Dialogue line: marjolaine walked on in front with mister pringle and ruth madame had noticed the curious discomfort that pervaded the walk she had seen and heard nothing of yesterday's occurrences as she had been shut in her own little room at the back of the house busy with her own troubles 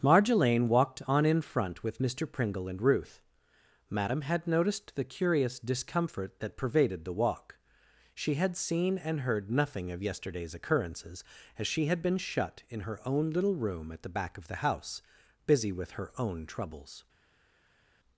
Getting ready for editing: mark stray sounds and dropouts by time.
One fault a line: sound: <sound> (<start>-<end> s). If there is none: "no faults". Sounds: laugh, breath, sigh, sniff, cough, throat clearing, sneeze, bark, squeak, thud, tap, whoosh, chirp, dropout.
no faults